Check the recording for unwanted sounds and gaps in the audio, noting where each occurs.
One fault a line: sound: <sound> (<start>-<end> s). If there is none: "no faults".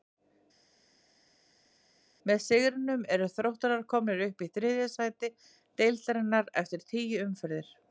no faults